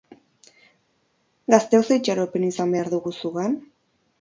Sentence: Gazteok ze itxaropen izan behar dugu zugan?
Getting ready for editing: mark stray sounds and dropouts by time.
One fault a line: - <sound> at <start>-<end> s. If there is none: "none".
none